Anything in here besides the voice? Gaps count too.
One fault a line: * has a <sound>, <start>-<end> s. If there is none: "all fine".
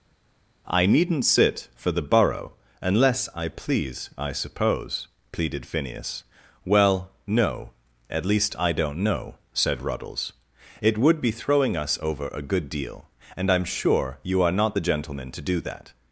all fine